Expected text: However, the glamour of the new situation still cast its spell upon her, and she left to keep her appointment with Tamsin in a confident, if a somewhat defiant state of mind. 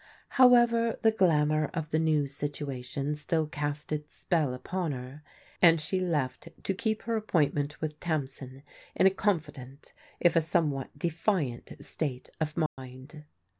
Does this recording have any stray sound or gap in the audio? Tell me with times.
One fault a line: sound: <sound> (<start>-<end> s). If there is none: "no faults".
sound: dropout (12.7-12.8 s)